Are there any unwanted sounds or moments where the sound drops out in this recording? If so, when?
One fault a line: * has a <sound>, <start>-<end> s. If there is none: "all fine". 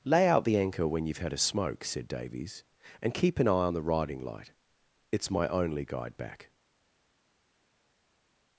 all fine